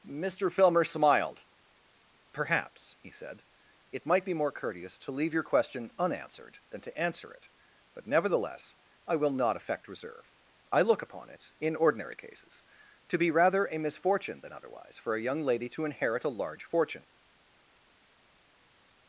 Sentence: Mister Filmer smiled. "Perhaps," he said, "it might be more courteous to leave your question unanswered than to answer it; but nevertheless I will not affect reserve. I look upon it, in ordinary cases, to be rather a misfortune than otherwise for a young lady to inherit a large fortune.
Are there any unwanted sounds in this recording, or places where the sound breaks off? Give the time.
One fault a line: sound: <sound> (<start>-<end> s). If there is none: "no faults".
no faults